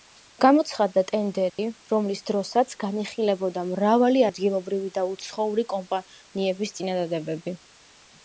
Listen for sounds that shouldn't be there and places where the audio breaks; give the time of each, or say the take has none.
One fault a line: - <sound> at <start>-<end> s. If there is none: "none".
- dropout at 1.5-1.6 s